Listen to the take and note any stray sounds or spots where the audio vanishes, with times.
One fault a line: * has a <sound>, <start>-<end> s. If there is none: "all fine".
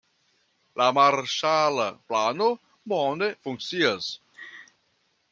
* has a laugh, 4.3-4.7 s